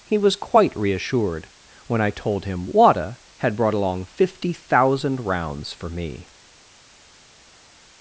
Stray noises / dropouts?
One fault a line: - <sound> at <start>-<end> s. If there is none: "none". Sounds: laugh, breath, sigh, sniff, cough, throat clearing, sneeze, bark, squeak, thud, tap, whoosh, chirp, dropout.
none